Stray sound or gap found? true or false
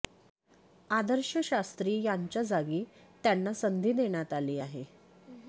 false